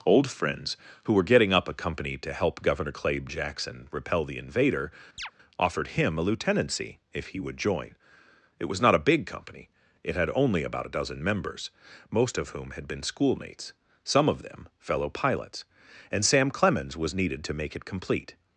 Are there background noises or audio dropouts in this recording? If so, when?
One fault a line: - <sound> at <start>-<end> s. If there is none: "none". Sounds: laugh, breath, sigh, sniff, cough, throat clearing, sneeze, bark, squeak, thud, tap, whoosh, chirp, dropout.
- chirp at 5.2-5.3 s